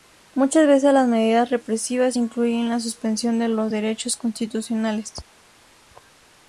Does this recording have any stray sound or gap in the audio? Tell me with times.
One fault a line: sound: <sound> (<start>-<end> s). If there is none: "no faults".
no faults